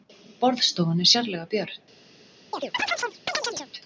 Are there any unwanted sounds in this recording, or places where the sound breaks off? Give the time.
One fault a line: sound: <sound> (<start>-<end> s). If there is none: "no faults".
sound: chirp (2.5-3.7 s)